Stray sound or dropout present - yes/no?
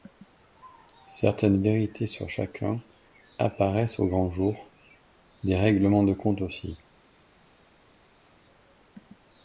no